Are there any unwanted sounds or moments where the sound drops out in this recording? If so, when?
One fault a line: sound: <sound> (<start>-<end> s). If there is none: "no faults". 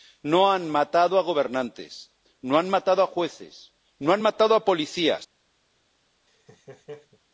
sound: laugh (6.3-7.2 s)